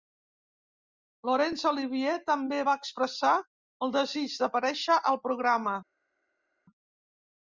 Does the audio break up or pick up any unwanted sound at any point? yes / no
no